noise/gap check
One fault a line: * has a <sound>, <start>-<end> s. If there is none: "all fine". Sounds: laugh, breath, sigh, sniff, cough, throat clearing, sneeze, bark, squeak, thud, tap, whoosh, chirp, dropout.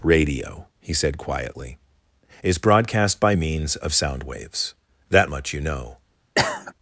* has a cough, 6.4-6.7 s